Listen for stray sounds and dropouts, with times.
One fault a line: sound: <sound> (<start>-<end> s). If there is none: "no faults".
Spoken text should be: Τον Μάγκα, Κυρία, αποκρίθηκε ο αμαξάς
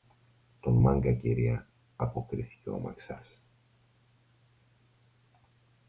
no faults